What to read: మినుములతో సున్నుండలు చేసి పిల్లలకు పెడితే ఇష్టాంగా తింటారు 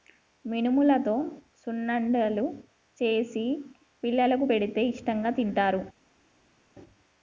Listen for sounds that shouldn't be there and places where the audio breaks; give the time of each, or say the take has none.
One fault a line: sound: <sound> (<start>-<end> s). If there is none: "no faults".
no faults